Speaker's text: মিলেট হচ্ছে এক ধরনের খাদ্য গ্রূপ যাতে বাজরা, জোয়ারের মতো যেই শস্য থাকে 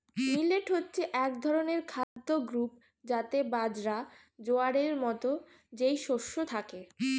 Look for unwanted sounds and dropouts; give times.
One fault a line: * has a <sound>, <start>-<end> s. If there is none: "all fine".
* has a dropout, 2.0-2.2 s